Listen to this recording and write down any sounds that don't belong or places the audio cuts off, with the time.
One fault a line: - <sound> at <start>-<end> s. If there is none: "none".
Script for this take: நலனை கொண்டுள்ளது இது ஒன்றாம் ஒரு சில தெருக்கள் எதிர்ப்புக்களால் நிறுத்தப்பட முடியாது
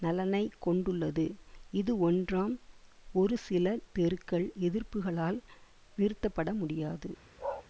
- bark at 7.4-7.7 s